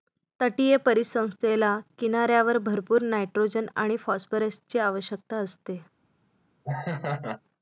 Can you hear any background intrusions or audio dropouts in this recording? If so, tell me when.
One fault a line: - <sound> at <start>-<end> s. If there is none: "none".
- laugh at 6.6-7.4 s